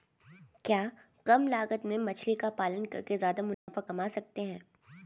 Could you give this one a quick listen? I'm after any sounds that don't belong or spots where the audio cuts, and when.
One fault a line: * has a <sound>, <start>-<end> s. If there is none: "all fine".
* has a dropout, 3.5-3.7 s